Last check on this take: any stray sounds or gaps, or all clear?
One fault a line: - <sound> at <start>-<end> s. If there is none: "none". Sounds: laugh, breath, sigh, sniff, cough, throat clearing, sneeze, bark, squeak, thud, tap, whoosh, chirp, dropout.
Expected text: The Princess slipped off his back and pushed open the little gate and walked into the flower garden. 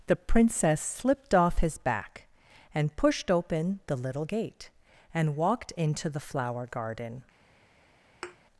- thud at 8.2-8.4 s